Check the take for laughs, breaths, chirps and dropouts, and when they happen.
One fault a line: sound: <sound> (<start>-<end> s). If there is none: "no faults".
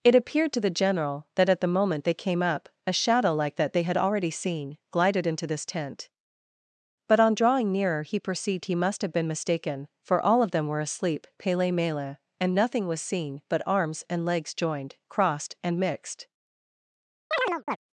sound: chirp (17.3-17.8 s)